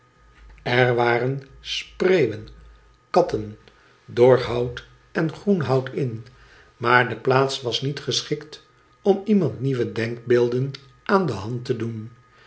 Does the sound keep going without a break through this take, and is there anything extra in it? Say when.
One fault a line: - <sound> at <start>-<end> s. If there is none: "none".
none